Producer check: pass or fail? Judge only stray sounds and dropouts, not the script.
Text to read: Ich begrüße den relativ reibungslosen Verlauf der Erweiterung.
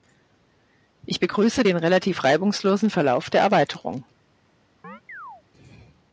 fail